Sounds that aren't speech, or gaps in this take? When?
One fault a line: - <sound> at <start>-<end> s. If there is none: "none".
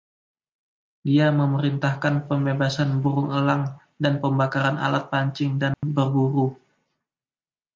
- dropout at 5.7-5.8 s